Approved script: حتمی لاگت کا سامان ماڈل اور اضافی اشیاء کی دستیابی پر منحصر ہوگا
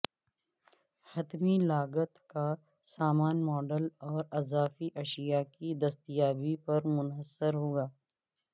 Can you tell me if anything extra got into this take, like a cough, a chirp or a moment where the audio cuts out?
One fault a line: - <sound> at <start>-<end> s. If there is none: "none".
none